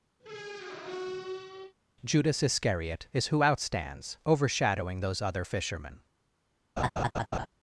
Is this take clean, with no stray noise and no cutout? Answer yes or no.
no